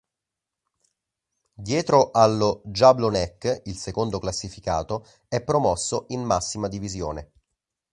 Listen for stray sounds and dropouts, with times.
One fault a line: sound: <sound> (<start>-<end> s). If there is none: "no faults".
no faults